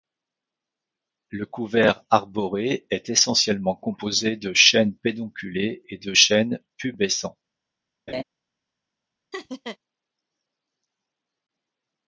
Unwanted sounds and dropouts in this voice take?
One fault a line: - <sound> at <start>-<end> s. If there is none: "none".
- laugh at 8.1-8.2 s
- laugh at 9.3-9.8 s